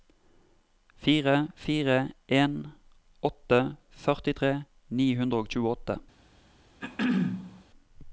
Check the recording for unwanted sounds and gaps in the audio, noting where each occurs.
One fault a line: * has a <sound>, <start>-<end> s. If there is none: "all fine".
* has a throat clearing, 6.8-7.6 s